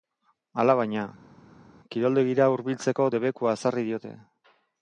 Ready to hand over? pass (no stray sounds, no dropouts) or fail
pass